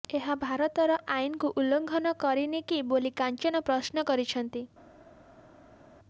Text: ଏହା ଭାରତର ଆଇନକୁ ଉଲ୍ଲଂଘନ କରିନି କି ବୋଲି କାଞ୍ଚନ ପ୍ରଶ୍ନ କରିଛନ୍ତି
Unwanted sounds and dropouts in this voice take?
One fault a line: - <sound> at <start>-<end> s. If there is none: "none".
none